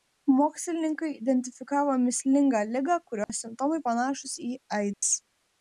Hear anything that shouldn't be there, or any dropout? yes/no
yes